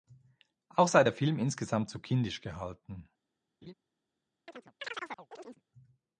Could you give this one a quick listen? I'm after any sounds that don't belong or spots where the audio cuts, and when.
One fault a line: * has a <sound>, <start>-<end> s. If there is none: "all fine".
* has a laugh, 3.6-3.7 s
* has a chirp, 4.5-5.6 s